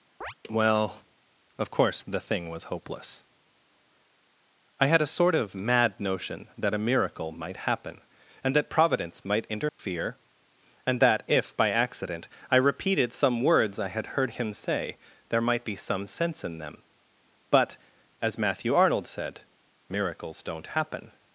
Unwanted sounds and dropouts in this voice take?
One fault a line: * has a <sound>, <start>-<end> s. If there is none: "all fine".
* has a chirp, 0.2-0.3 s
* has a dropout, 9.7-9.8 s